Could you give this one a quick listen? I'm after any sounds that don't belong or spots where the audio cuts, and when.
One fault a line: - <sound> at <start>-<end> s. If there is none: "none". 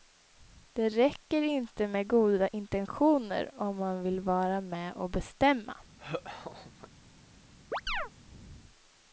- laugh at 6.0-6.9 s
- chirp at 7.7-8.1 s